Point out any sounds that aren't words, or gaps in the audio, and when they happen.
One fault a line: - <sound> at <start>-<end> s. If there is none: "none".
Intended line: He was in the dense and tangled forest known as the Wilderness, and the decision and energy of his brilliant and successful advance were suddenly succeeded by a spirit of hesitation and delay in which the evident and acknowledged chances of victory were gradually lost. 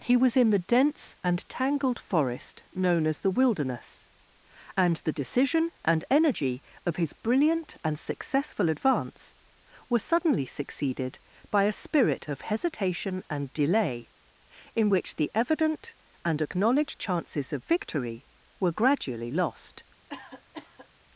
- cough at 20.1-20.9 s